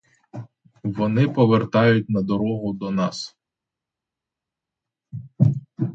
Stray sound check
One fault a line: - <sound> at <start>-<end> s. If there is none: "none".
none